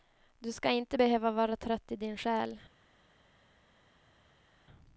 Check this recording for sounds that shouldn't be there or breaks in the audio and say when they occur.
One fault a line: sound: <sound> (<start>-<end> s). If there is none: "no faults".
no faults